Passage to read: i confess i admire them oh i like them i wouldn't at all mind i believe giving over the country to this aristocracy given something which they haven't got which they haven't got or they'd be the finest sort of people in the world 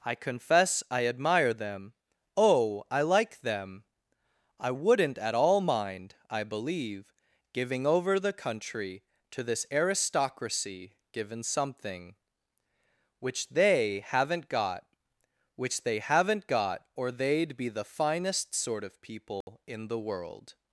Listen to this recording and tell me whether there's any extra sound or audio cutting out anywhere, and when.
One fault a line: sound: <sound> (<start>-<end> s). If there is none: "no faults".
sound: dropout (19.4-19.5 s)